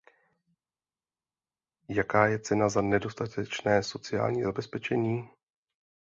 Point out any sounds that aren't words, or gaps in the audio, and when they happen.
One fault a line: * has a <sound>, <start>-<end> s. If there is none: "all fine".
all fine